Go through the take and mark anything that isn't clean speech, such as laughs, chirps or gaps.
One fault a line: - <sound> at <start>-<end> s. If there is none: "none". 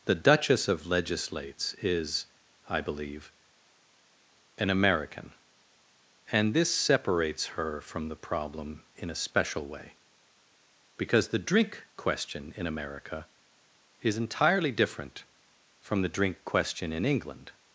none